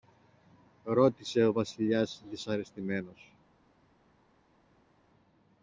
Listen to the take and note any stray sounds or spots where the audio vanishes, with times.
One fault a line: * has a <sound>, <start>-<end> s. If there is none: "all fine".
all fine